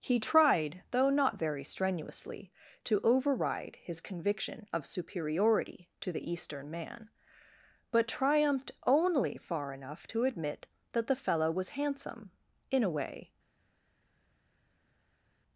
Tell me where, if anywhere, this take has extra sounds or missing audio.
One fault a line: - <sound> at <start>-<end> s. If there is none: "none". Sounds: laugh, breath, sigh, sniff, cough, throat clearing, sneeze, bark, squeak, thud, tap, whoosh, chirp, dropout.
none